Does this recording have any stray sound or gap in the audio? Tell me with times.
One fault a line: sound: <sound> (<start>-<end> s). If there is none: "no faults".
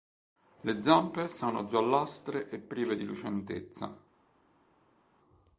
no faults